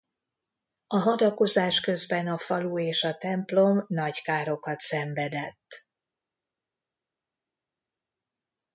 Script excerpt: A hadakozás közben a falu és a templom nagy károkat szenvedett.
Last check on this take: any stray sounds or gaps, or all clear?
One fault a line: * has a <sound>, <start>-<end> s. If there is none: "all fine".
all fine